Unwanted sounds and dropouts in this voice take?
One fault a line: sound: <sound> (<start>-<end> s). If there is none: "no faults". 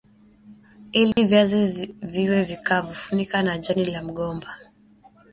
sound: dropout (1.1-1.2 s)